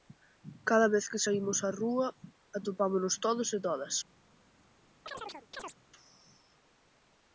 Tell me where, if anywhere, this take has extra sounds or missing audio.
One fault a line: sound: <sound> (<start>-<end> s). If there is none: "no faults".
sound: chirp (5.1-5.8 s)